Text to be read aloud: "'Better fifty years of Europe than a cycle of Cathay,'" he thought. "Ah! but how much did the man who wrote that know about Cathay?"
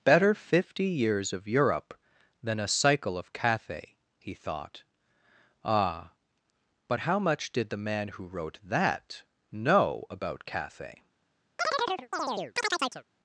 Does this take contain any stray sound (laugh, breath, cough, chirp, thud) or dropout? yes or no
yes